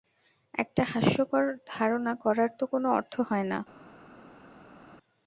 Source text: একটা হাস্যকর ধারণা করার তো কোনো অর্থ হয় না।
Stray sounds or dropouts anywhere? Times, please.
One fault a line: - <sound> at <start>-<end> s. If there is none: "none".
none